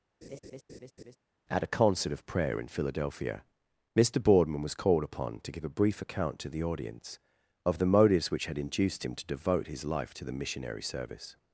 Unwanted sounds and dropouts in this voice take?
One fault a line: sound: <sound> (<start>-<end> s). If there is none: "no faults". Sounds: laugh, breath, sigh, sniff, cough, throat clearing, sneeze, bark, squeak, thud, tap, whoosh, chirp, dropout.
sound: laugh (0.2-1.2 s)